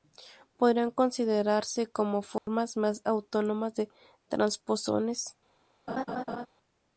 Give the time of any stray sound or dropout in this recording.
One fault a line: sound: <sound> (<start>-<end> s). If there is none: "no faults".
sound: dropout (2.4-2.5 s)
sound: laugh (5.9-6.5 s)